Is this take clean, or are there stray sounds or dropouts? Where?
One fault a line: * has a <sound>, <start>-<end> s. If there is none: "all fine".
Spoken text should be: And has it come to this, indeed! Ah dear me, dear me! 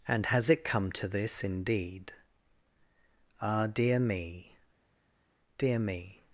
all fine